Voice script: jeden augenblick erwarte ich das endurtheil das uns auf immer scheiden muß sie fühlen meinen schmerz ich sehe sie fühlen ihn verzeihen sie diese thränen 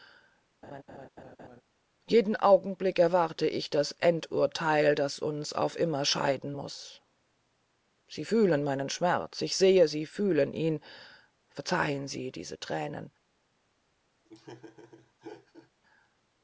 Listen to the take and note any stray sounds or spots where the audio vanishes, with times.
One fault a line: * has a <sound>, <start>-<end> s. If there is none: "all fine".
* has a laugh, 0.6-1.6 s
* has a laugh, 14.2-15.7 s